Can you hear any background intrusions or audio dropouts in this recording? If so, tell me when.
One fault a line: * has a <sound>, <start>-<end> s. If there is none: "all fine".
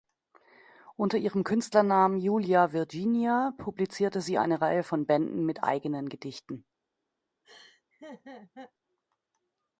* has a laugh, 7.4-8.7 s